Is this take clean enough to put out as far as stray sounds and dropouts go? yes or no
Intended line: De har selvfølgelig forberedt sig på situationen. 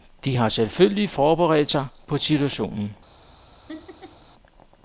no